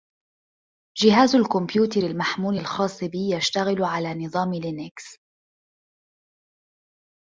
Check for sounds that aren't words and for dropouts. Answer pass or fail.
pass